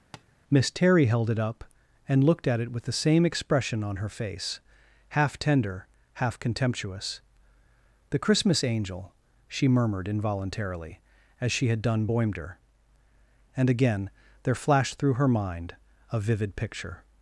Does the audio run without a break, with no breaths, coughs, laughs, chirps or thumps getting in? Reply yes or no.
no